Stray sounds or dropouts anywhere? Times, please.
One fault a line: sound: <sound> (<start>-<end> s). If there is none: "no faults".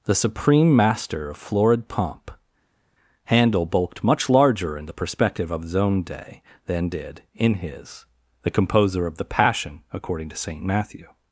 no faults